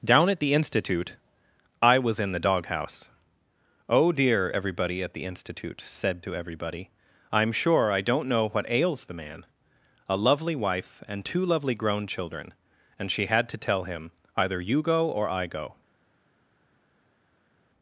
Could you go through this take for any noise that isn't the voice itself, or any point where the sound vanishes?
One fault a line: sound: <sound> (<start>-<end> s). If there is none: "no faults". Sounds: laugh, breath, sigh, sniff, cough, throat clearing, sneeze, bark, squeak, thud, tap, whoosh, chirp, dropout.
no faults